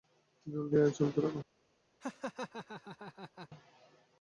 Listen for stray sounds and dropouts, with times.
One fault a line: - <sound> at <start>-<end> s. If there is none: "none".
- laugh at 2.0-3.5 s